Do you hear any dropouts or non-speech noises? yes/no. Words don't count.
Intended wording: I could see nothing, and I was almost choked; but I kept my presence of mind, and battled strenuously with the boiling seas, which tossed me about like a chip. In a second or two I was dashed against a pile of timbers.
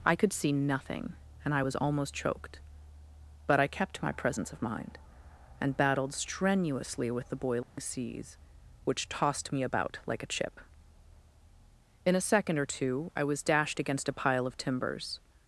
yes